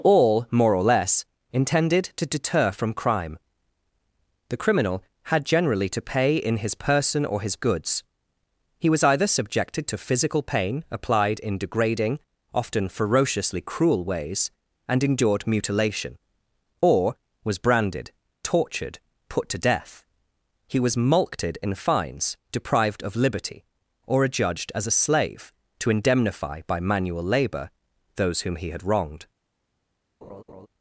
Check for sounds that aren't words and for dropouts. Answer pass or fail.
fail